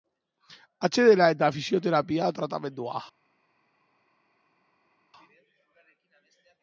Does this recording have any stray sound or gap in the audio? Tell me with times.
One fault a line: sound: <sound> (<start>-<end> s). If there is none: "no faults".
no faults